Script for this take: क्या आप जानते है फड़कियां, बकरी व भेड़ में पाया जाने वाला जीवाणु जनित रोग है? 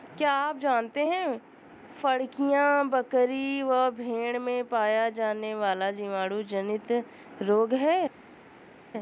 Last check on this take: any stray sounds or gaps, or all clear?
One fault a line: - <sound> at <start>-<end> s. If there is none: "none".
none